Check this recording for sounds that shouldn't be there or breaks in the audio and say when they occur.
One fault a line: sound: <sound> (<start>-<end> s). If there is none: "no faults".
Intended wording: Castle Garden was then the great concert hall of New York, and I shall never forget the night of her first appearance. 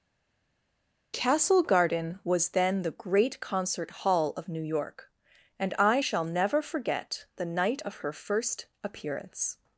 no faults